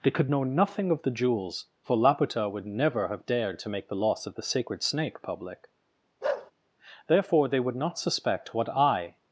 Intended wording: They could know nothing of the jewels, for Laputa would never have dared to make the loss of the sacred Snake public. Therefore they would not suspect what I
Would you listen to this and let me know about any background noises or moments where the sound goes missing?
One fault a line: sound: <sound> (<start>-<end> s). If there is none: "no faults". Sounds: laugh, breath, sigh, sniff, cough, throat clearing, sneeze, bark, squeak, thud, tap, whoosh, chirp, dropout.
sound: bark (6.2-6.5 s)